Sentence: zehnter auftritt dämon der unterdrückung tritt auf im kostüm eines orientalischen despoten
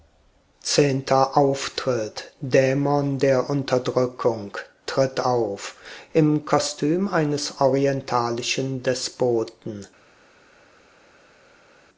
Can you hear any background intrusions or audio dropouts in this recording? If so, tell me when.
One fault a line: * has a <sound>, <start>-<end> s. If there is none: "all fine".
all fine